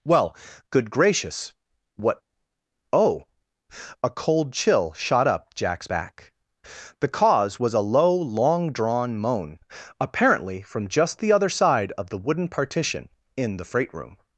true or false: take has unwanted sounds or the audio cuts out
false